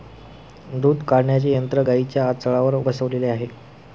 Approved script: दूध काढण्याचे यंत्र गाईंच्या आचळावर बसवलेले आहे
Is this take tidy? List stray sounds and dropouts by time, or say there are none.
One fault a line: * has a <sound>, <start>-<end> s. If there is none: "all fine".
all fine